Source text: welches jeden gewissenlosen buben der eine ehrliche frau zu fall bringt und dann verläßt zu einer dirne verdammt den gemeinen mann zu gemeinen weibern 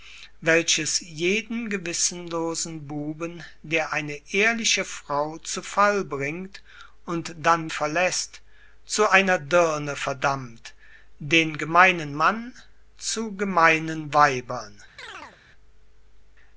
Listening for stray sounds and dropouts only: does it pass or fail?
fail